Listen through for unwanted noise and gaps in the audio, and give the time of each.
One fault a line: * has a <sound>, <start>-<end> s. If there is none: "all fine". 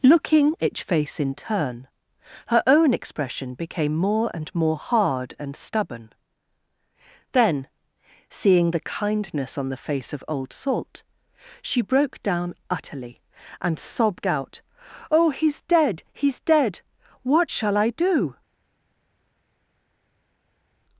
all fine